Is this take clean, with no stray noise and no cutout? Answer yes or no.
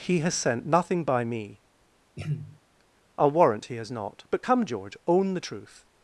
no